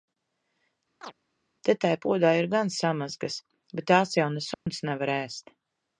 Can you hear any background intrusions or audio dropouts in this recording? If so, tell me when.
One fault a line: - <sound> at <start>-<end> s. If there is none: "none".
- chirp at 1.0-1.1 s
- dropout at 4.5-4.7 s